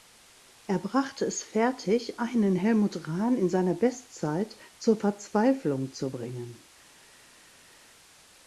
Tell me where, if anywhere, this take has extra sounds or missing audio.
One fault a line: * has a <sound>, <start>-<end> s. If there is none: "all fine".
all fine